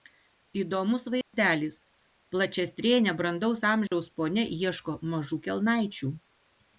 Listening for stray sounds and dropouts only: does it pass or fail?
fail